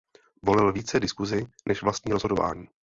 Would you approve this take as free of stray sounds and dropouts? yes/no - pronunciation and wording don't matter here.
yes